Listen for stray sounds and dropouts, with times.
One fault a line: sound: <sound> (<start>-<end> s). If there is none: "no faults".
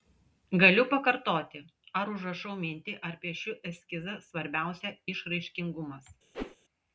sound: whoosh (6.3-6.6 s)